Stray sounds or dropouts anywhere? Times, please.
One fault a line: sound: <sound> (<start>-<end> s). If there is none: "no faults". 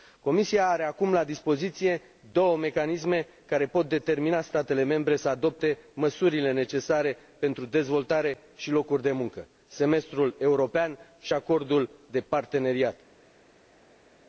no faults